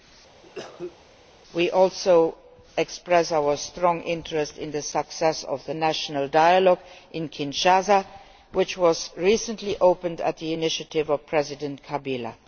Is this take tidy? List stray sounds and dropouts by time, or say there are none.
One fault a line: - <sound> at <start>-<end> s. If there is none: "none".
- cough at 0.4-1.0 s